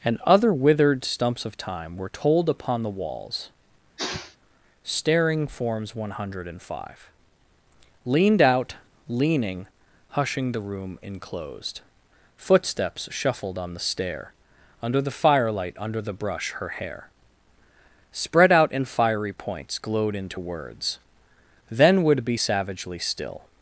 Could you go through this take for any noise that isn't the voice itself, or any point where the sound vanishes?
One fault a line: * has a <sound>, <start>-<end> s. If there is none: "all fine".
* has a sneeze, 4.0-4.4 s